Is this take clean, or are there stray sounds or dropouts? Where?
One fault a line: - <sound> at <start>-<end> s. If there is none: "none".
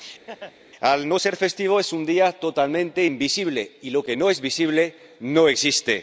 - laugh at 0.3-0.5 s